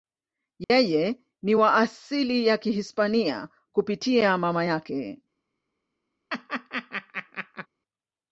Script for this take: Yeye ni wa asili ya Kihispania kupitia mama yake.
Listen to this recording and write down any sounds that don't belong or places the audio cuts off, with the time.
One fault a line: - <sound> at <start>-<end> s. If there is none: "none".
- dropout at 0.6-0.7 s
- laugh at 6.3-7.7 s